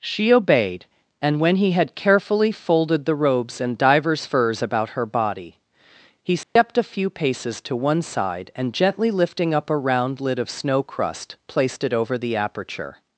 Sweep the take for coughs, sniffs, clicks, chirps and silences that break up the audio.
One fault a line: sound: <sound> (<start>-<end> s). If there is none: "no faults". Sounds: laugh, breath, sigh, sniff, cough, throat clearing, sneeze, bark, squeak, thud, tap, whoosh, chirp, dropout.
sound: dropout (6.4-6.6 s)